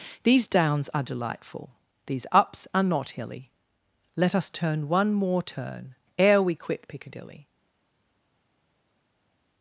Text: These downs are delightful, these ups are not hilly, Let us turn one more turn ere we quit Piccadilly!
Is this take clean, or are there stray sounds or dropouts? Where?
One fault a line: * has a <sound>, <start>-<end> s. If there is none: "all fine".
all fine